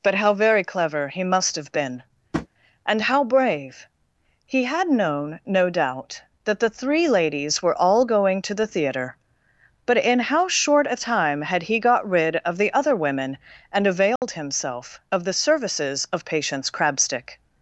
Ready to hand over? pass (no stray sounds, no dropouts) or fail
fail